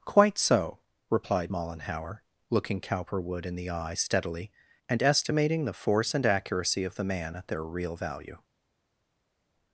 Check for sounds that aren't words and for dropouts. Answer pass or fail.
pass